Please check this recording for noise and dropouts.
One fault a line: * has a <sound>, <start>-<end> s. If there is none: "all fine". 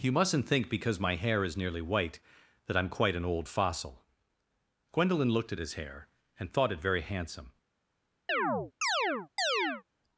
* has a chirp, 8.3-9.8 s